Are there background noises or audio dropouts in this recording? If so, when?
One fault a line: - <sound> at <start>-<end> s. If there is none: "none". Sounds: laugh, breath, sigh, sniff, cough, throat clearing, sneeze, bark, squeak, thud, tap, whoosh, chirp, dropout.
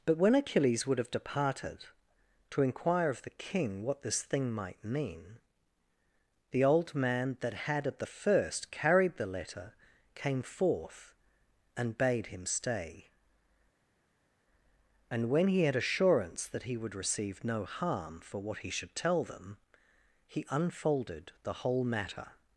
none